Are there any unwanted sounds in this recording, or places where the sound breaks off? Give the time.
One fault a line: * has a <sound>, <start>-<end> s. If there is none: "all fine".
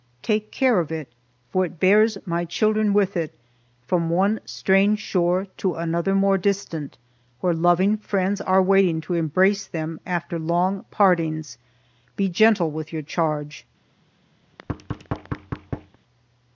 * has a thud, 14.4-16.0 s